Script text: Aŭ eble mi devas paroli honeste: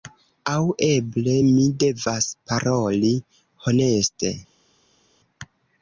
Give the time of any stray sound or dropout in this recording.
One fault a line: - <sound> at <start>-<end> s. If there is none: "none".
none